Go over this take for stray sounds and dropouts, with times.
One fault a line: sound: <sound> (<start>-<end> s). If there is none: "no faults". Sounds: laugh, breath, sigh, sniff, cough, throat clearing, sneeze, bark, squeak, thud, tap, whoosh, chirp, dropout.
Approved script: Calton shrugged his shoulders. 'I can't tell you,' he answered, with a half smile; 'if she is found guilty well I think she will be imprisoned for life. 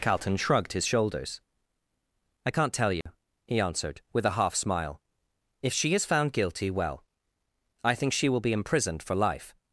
sound: dropout (3.0-3.1 s)